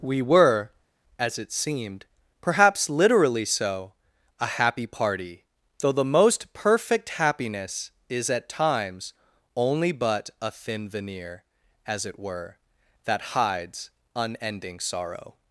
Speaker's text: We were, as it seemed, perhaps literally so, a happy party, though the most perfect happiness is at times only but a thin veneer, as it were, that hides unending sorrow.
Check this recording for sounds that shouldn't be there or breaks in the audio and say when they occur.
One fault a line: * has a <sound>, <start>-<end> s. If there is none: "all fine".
all fine